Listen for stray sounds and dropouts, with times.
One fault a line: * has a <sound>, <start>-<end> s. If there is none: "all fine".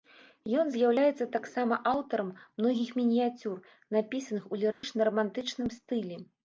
* has a dropout, 4.7-4.8 s